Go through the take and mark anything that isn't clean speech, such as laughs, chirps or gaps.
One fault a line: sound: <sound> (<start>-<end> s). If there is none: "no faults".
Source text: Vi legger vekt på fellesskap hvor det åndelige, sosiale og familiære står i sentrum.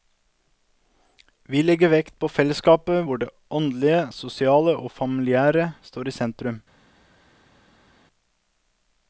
no faults